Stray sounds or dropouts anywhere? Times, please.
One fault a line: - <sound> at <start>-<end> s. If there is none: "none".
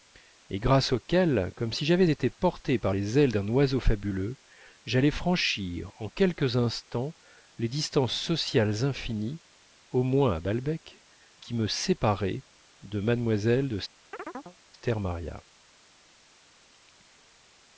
- chirp at 14.1-14.6 s